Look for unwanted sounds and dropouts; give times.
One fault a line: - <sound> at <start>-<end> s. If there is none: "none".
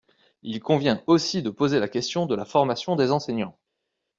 none